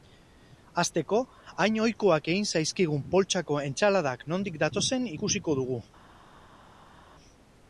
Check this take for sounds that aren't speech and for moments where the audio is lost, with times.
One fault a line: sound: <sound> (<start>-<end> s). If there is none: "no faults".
no faults